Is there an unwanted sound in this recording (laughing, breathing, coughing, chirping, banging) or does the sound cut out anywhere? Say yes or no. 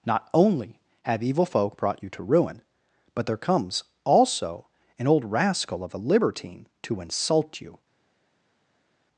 no